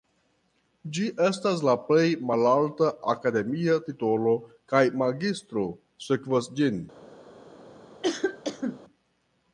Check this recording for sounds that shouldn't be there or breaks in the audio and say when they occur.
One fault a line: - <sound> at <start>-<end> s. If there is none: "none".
- cough at 8.0-8.8 s